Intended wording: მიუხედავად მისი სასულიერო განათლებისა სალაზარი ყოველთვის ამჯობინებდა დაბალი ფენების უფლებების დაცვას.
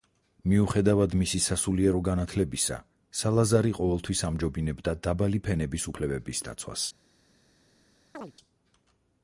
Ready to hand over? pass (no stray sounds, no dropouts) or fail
fail